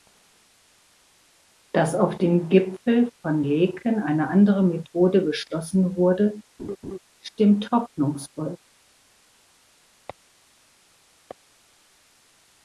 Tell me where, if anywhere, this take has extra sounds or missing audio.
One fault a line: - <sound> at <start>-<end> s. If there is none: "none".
- laugh at 6.6-7.0 s